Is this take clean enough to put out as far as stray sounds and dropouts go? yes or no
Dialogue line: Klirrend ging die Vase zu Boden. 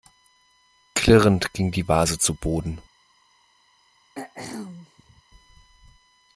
no